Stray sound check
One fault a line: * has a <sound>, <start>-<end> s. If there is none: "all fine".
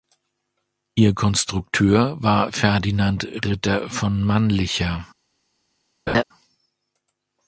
* has a laugh, 6.1-6.2 s